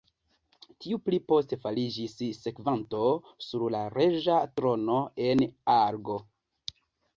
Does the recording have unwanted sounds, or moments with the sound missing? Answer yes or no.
no